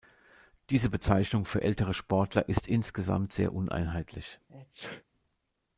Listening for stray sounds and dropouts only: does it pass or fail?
fail